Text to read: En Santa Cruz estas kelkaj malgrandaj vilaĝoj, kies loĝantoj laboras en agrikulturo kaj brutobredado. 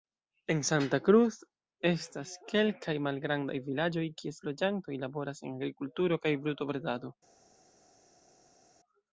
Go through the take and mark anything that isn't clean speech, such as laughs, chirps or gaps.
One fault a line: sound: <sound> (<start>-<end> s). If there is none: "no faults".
no faults